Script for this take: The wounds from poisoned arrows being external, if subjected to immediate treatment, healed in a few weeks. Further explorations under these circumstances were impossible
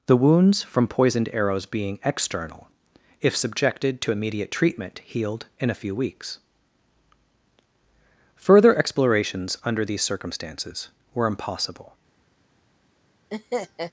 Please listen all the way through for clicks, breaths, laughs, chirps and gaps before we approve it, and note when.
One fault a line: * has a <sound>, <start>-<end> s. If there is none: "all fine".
* has a laugh, 13.3-13.9 s